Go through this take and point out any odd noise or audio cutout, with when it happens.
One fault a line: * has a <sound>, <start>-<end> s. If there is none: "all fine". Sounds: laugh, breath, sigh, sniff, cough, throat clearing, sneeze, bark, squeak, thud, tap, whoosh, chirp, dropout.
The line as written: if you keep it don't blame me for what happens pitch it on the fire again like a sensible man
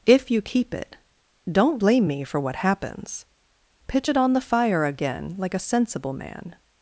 all fine